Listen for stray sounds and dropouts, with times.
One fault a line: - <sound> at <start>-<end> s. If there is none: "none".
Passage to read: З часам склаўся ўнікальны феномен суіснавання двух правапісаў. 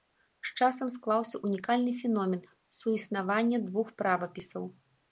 none